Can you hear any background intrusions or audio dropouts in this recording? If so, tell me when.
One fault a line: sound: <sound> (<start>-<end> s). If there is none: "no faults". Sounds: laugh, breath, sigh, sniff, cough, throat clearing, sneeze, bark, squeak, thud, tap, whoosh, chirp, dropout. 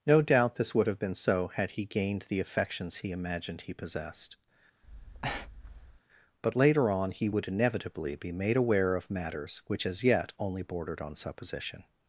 sound: breath (4.8-6.0 s)